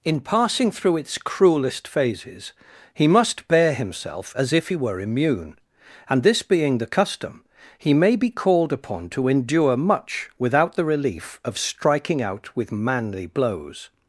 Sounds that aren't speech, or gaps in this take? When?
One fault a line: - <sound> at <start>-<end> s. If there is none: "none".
none